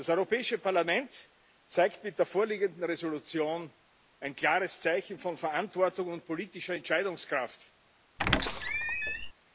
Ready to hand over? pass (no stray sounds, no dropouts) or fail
fail